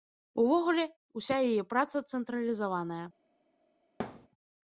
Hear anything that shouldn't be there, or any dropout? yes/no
yes